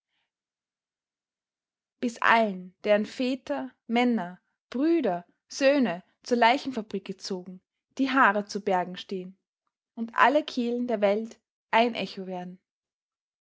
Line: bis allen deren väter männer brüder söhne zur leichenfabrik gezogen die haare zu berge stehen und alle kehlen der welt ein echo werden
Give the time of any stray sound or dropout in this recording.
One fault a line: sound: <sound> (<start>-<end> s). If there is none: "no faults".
no faults